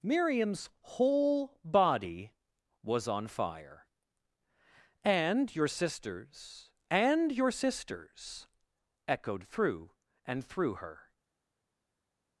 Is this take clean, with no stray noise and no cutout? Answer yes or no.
yes